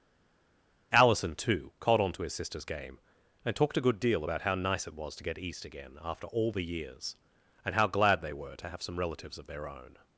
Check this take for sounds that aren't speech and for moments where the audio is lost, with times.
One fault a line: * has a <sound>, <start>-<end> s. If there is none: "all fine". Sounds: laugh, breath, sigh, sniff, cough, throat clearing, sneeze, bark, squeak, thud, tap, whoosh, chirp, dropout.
all fine